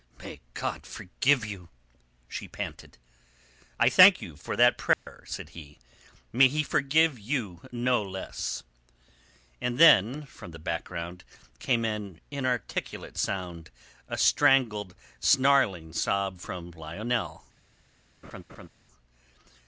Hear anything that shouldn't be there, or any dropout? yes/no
yes